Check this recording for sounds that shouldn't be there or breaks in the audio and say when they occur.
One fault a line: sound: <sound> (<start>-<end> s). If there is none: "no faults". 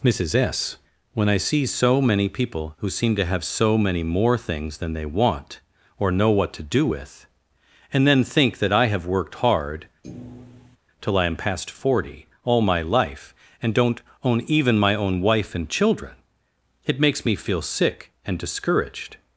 sound: thud (10.0-10.8 s)